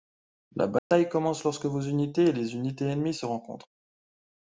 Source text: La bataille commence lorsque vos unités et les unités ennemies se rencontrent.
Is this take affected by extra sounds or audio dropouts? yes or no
yes